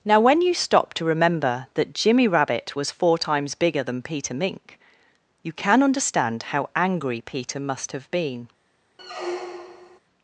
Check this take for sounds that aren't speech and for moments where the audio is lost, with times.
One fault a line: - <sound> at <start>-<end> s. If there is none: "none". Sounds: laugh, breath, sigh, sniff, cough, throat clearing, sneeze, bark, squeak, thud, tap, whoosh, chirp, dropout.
- squeak at 9.0-10.0 s